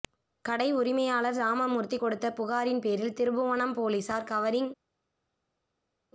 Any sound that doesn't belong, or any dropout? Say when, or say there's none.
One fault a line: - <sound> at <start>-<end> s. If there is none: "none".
none